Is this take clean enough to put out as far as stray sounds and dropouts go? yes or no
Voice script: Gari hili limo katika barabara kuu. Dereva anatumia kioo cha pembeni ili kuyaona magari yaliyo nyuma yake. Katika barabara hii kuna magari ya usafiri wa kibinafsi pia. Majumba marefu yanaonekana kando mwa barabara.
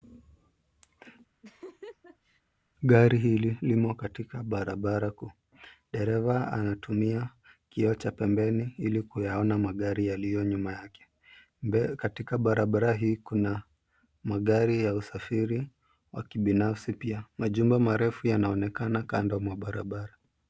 no